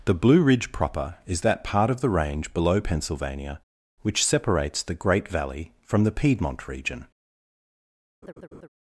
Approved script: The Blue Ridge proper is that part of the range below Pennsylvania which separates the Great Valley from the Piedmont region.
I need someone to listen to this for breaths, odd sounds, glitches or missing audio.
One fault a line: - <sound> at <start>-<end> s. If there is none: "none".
- laugh at 8.2-8.7 s